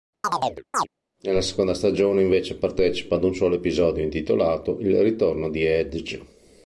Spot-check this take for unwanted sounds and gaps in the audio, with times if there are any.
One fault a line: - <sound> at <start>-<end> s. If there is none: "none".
- chirp at 0.2-0.9 s